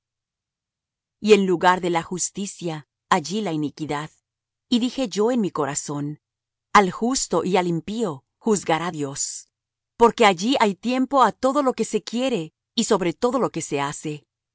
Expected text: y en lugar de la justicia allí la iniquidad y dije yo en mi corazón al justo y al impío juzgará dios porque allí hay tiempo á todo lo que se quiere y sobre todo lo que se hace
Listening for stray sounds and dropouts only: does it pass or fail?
pass